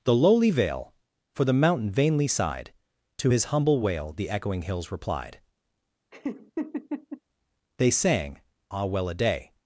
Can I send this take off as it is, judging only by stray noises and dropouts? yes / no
no